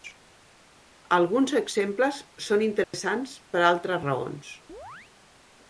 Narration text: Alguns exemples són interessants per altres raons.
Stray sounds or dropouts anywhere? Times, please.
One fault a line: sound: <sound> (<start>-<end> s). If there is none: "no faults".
sound: dropout (2.8-2.9 s)
sound: chirp (4.7-5.1 s)